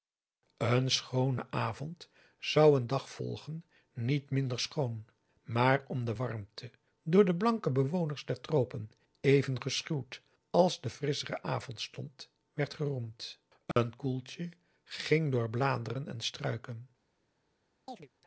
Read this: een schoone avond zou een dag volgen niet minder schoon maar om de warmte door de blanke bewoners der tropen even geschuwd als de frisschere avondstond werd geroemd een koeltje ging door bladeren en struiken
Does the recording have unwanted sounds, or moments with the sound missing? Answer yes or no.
yes